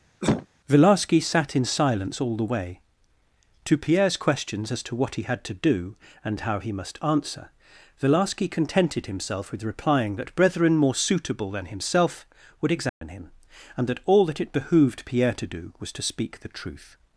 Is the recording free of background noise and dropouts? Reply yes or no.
no